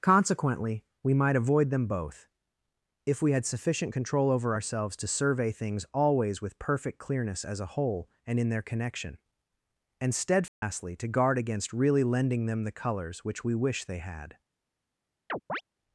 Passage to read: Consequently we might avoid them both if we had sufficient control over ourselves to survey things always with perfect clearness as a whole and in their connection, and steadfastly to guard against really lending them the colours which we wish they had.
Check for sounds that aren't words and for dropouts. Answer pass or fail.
fail